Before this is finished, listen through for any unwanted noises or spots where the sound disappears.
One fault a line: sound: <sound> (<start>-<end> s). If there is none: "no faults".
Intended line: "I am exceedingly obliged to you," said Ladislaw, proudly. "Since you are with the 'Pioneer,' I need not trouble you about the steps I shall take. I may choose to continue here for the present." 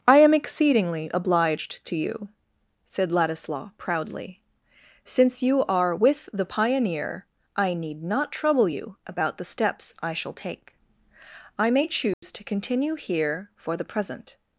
sound: dropout (12.1-12.2 s)